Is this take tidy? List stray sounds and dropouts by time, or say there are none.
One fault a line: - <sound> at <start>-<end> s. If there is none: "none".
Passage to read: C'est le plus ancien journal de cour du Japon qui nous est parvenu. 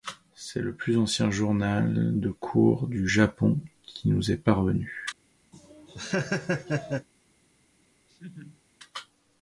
- laugh at 5.5-7.1 s
- laugh at 8.1-8.6 s